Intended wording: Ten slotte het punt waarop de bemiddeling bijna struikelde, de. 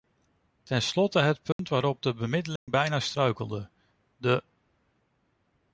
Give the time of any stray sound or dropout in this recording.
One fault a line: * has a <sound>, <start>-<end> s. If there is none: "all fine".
* has a dropout, 1.5-1.6 s
* has a dropout, 2.6-2.7 s